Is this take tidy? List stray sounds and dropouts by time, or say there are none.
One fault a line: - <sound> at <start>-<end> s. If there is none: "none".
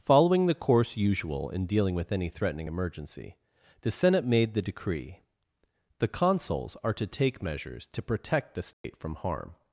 - dropout at 8.7-8.8 s